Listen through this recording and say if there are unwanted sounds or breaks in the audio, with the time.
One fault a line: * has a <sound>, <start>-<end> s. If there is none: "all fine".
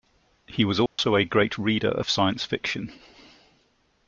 * has a dropout, 0.9-1.0 s